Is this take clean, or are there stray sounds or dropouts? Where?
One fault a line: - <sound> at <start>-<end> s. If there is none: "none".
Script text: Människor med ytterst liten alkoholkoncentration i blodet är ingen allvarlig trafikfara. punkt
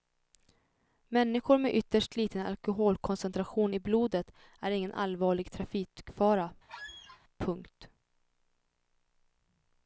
- squeak at 6.7-7.2 s